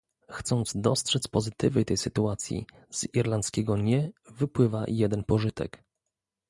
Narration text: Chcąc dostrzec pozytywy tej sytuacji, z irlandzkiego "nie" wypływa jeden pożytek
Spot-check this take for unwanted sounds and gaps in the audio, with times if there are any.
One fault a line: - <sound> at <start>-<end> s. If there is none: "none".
none